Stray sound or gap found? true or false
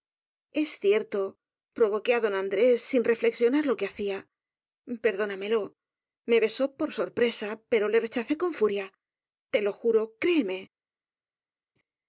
false